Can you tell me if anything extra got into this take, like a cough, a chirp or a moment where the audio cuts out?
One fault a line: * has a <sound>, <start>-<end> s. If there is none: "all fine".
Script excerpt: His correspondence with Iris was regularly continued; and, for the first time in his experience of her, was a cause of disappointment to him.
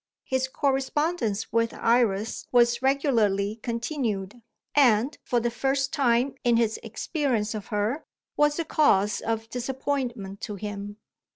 all fine